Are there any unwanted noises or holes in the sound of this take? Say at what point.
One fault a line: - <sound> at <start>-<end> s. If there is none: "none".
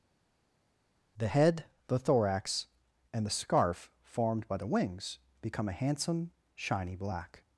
none